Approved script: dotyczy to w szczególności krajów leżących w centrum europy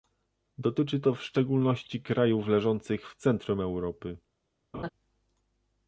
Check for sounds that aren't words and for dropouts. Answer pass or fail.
fail